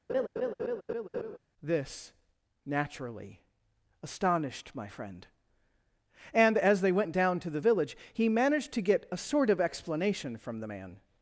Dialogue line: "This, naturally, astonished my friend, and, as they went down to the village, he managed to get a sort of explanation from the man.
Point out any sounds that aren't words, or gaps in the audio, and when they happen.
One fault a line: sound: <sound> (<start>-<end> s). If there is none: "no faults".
sound: laugh (0.1-1.4 s)